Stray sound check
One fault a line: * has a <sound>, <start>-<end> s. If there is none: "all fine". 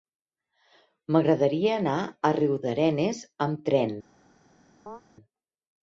* has a chirp, 4.9-5.0 s